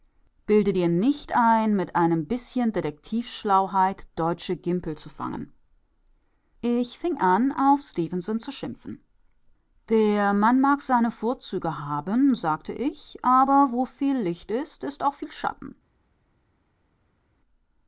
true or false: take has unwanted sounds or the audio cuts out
false